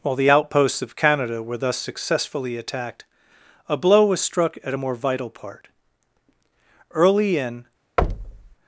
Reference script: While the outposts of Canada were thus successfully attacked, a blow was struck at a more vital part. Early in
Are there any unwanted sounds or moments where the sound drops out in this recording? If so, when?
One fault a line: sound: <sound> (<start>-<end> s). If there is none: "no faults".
sound: thud (8.0-8.5 s)